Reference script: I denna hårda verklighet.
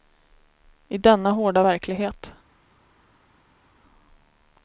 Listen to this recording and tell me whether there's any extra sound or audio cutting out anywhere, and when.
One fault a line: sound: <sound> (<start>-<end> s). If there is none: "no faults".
no faults